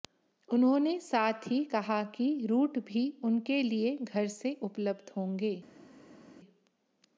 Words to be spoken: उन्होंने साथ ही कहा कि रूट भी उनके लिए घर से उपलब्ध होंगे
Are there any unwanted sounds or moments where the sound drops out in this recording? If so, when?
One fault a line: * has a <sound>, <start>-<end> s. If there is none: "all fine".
all fine